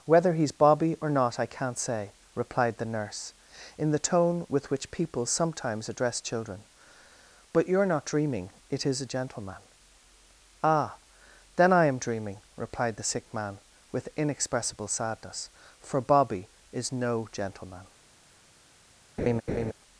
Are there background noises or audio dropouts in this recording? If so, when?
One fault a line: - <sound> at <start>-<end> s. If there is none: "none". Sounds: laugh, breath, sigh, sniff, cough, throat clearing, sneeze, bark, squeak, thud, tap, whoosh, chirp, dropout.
- laugh at 19.2-19.7 s